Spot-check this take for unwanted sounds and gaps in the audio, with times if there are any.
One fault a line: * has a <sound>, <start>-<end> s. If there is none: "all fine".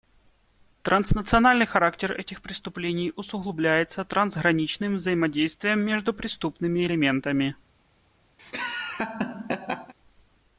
* has a laugh, 8.4-9.9 s